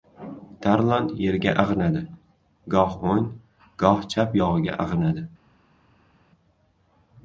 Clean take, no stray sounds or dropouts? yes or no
yes